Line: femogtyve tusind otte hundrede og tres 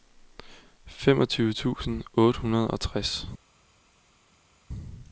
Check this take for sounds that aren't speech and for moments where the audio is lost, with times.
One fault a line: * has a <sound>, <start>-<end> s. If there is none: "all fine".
all fine